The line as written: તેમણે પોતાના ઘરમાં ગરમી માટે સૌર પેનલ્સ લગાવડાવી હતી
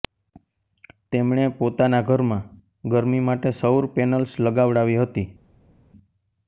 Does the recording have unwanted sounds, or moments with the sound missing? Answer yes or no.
no